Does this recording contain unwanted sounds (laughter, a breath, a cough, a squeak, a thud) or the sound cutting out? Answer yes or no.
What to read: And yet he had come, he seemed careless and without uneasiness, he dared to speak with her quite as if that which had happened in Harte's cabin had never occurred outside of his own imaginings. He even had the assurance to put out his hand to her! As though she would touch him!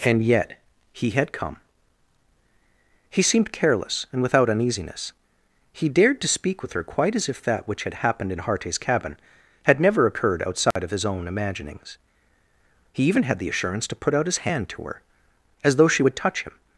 yes